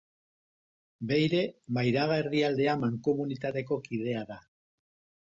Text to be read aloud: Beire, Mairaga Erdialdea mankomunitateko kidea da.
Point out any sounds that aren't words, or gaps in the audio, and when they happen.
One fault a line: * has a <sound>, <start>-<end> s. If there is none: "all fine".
all fine